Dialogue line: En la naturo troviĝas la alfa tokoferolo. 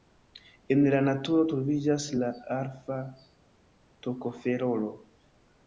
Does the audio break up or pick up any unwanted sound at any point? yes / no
no